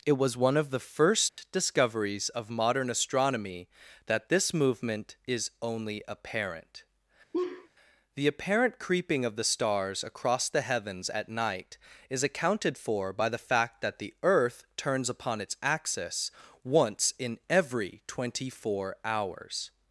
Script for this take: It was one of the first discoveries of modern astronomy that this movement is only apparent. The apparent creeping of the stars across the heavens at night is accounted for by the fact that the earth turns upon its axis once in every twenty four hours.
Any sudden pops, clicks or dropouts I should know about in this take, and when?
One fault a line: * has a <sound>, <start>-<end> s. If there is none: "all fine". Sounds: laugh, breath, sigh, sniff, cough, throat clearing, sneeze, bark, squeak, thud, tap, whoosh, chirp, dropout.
* has a dropout, 1.3-1.4 s
* has a laugh, 7.3-7.7 s